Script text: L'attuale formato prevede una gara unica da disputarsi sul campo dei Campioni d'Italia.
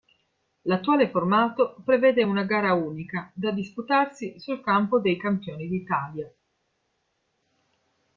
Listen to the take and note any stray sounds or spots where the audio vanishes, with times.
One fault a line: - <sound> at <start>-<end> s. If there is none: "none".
none